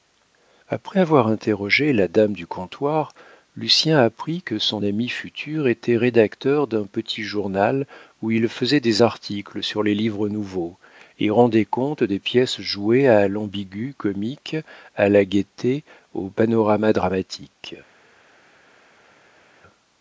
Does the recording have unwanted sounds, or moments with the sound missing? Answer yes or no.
no